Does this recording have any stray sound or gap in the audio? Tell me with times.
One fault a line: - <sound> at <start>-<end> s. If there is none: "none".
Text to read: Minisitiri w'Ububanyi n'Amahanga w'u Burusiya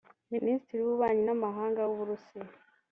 none